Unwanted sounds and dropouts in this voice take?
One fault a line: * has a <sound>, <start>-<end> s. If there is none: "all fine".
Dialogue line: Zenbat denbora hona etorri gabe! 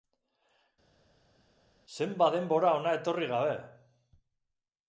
all fine